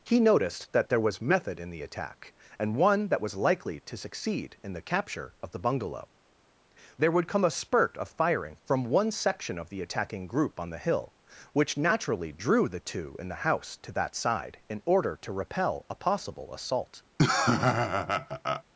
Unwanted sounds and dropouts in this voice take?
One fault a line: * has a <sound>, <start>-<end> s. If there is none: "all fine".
* has a laugh, 17.2-18.6 s